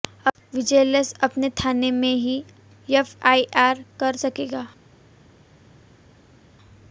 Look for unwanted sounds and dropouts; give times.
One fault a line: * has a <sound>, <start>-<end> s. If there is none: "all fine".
all fine